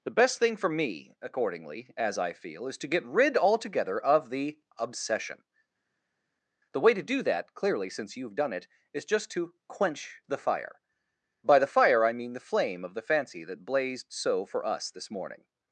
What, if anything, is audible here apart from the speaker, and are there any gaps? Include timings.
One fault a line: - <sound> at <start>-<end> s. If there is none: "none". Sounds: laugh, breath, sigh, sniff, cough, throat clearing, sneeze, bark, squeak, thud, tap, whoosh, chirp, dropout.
none